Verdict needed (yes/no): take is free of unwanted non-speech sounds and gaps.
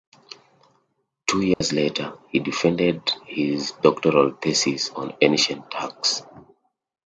no